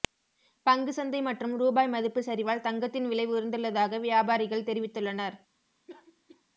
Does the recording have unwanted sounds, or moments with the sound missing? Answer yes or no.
yes